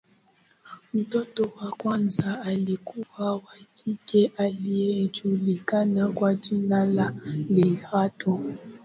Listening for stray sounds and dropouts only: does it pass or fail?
pass